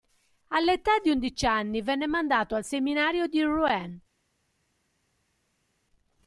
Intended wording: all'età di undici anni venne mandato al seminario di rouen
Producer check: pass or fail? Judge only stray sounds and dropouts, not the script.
pass